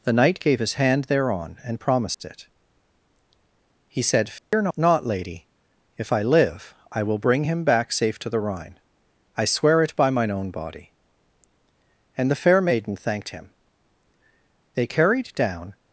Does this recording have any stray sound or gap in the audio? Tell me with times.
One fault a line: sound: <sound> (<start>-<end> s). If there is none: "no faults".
sound: dropout (2.1-2.2 s)
sound: dropout (4.4-4.5 s)